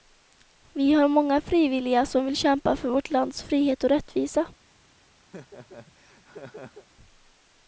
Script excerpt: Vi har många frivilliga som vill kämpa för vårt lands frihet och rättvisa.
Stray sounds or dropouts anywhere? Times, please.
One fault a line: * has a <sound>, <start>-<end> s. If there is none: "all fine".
* has a laugh, 5.3-6.9 s